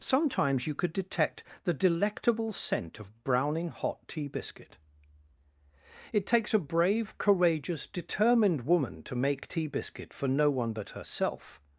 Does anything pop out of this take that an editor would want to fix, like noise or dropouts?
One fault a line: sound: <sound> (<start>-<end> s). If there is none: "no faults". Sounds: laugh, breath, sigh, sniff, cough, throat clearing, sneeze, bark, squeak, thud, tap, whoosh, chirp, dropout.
no faults